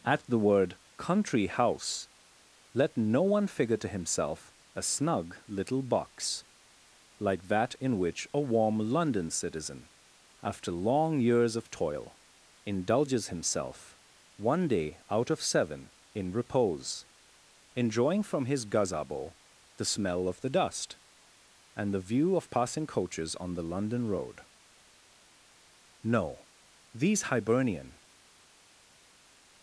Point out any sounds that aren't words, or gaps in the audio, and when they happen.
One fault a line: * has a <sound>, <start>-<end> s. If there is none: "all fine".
all fine